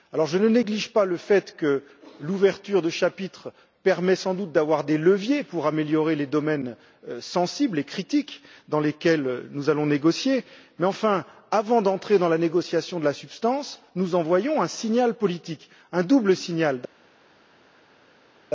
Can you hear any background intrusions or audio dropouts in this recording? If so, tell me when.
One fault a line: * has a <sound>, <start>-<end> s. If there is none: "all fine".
all fine